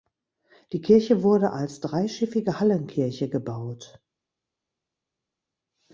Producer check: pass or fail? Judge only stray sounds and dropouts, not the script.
pass